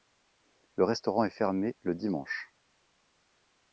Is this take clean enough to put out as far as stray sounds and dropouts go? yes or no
yes